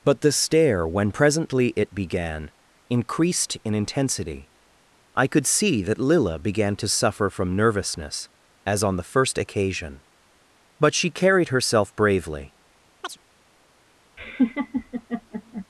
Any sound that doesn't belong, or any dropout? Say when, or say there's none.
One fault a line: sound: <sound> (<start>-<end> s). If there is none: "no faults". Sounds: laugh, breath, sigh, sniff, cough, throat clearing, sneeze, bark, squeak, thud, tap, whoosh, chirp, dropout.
sound: chirp (13.0-13.2 s)
sound: laugh (14.2-15.7 s)